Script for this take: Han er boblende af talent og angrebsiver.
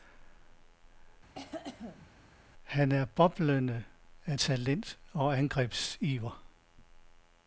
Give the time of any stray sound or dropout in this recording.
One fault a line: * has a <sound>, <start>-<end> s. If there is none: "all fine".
* has a cough, 1.3-2.1 s